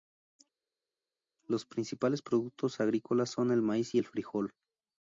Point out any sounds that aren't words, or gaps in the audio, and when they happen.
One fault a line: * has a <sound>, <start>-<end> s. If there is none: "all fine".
all fine